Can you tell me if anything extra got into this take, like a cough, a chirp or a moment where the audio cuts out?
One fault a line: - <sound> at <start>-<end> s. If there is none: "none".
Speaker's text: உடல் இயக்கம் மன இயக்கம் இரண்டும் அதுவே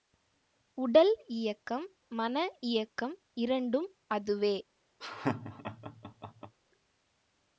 - laugh at 5.0-6.5 s